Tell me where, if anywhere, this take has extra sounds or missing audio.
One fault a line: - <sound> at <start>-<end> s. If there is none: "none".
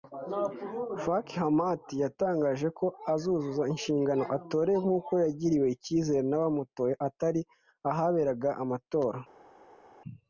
none